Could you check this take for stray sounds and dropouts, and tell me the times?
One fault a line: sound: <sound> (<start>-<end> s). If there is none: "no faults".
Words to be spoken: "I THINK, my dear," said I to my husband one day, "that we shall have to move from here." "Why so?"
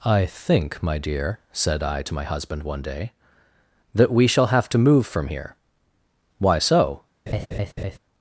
sound: laugh (7.3-8.0 s)